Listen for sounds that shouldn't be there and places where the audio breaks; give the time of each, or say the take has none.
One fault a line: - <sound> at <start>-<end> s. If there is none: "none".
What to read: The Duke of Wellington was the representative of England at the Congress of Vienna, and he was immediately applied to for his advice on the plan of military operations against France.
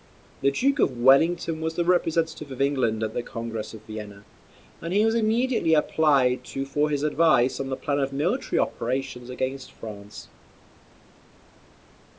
none